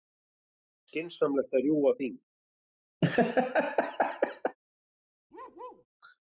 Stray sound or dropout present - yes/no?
yes